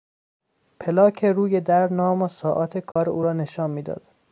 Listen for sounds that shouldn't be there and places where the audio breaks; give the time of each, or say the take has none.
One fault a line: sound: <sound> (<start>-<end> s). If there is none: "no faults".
sound: dropout (2.9-3.0 s)